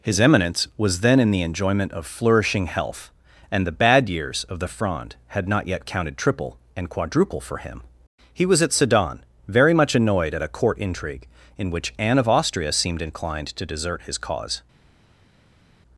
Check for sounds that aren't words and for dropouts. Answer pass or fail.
pass